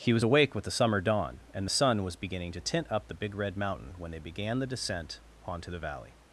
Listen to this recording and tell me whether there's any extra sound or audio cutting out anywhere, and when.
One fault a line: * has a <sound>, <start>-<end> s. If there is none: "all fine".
all fine